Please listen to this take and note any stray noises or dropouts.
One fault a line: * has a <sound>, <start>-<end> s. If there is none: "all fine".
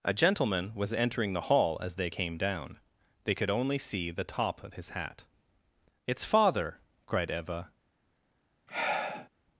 * has a sigh, 8.7-9.3 s